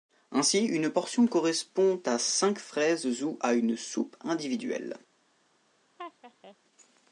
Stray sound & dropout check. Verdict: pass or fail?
fail